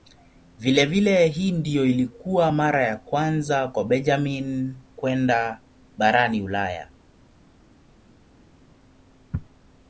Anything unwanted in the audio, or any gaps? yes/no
no